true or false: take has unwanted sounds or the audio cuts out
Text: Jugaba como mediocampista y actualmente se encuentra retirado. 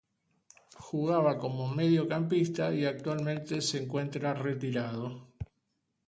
false